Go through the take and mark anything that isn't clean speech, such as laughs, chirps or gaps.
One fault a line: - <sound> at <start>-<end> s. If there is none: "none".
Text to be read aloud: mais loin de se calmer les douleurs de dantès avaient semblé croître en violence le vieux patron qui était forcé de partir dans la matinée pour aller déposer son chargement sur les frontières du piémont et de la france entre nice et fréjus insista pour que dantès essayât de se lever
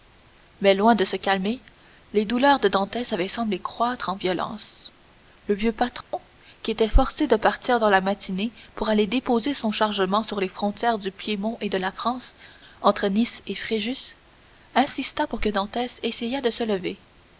- dropout at 6.0-6.1 s